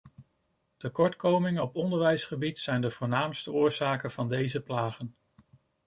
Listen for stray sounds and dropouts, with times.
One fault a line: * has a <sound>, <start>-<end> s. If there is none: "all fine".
all fine